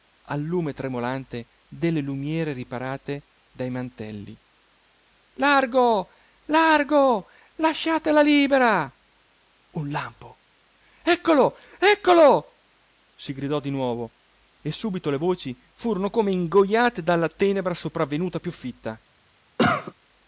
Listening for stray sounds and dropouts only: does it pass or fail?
fail